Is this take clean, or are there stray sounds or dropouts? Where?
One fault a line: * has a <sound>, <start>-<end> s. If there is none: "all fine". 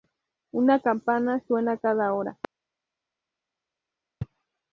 all fine